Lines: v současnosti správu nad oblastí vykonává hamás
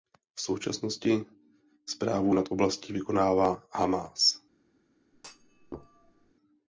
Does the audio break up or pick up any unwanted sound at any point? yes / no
yes